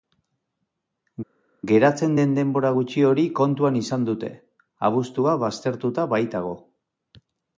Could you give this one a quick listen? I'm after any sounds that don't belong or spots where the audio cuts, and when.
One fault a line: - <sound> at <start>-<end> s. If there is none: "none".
none